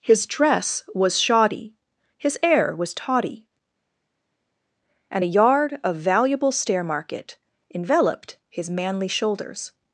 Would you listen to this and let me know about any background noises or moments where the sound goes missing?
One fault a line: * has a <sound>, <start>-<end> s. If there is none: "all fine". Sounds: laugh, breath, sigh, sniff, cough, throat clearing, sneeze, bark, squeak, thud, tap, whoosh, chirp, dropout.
all fine